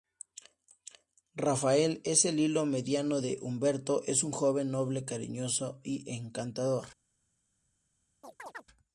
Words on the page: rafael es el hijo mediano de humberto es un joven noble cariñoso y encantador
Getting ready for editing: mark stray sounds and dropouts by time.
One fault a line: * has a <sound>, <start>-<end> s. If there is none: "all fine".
* has a chirp, 8.2-8.6 s